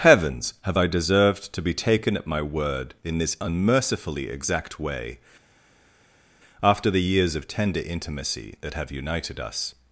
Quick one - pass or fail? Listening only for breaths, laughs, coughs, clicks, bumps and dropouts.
pass